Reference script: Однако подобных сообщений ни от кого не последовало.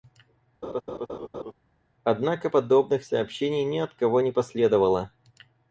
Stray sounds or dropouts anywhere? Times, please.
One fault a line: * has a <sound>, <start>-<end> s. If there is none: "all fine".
* has a laugh, 0.6-1.5 s